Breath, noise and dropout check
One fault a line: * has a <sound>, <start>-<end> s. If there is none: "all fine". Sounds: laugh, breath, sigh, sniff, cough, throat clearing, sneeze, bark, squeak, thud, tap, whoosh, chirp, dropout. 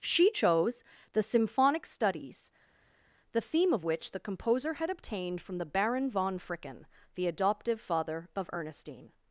all fine